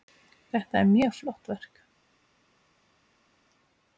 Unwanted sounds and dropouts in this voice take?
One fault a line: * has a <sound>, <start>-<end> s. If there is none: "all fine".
all fine